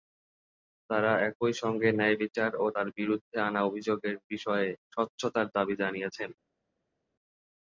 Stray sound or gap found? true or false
false